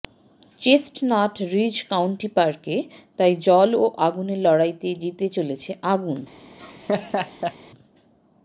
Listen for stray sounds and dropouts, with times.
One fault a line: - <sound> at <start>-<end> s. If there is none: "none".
- laugh at 6.6-7.5 s